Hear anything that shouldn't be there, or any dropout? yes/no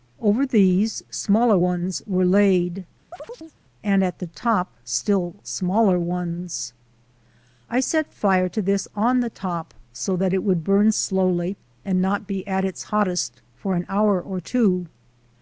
yes